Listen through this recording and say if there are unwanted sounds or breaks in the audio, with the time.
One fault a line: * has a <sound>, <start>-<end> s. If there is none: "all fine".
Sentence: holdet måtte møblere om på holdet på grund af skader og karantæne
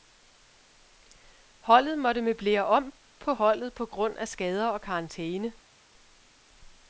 all fine